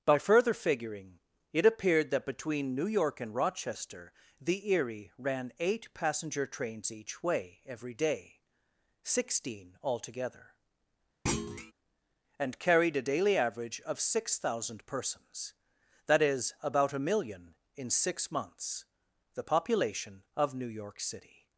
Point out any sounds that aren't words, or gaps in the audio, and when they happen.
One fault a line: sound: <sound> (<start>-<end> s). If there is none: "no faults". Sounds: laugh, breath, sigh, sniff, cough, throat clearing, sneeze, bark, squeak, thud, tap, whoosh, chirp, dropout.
sound: thud (11.3-11.7 s)